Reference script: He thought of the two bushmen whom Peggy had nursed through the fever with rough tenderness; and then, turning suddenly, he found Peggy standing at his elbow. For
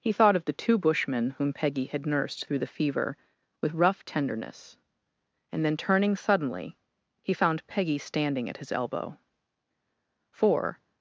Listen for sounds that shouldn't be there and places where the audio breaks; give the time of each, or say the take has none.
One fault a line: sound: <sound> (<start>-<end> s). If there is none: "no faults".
no faults